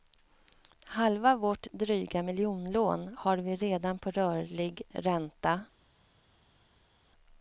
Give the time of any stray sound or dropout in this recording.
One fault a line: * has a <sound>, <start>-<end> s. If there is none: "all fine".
all fine